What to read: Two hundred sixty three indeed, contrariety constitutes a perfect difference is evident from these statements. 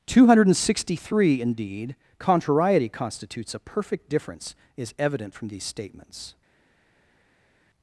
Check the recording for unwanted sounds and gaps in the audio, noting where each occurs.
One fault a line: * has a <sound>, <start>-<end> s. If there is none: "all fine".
all fine